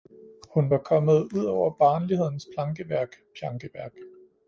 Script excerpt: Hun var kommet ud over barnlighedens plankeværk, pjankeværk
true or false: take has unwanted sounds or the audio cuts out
false